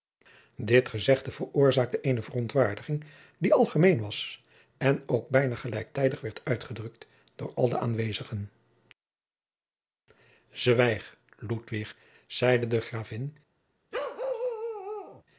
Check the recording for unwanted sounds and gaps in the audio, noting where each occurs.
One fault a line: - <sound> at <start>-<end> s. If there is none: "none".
- bark at 13.9-15.2 s